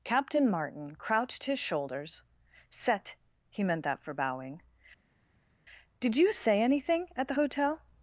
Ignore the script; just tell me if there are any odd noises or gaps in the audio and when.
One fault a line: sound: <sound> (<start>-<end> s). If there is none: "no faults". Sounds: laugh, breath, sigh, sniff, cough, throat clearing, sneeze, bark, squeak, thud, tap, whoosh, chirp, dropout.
no faults